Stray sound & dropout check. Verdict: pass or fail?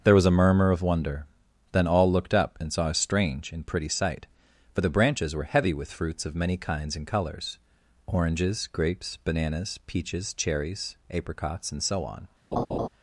fail